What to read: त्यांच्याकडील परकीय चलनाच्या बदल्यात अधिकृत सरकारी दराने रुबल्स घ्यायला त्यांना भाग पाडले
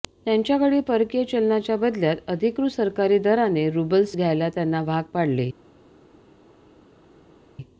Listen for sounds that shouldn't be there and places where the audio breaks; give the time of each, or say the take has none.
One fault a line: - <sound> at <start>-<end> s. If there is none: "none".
none